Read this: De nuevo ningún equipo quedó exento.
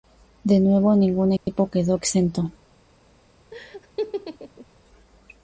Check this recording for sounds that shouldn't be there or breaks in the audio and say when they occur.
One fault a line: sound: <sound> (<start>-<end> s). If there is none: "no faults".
sound: dropout (1.4-1.5 s)
sound: laugh (3.5-4.7 s)